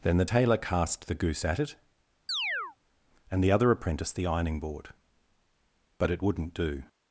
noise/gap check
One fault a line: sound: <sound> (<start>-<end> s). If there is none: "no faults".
sound: chirp (2.3-2.8 s)